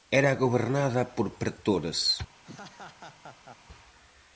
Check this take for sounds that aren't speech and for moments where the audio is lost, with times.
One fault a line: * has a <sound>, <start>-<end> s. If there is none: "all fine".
* has a laugh, 2.4-3.6 s